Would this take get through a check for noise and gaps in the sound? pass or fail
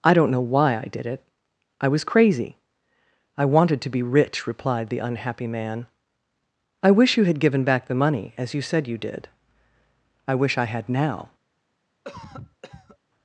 fail